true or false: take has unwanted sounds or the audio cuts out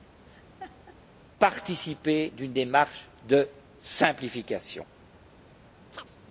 true